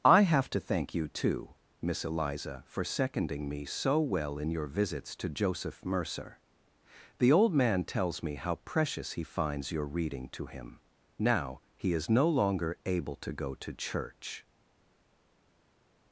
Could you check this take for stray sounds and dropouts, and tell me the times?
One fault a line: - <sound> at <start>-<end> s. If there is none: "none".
none